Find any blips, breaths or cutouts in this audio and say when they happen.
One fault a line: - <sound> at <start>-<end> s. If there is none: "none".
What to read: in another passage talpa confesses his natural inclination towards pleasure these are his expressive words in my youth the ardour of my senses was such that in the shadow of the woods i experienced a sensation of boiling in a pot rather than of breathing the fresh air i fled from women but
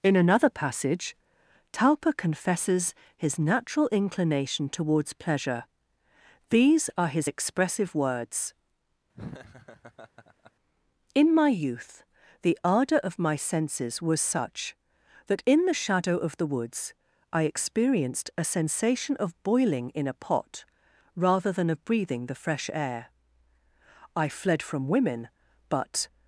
- laugh at 9.1-10.5 s